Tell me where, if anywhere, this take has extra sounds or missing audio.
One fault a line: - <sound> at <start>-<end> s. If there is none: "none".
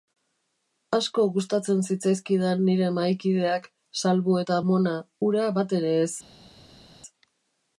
none